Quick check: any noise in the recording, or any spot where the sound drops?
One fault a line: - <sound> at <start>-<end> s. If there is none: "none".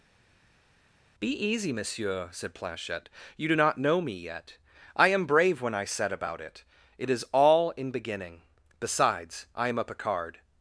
none